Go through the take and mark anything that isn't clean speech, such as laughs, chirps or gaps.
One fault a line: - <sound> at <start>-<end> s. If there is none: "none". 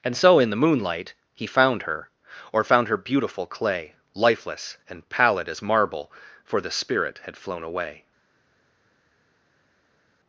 none